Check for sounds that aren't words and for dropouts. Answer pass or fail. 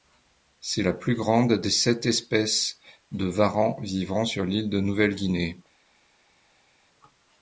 pass